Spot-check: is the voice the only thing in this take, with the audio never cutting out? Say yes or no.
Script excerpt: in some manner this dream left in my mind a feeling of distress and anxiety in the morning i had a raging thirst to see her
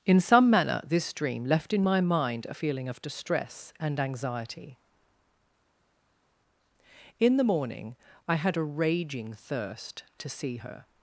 yes